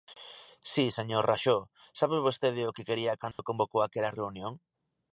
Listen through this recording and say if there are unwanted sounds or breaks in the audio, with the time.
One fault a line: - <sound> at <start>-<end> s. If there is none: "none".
- dropout at 3.3-3.4 s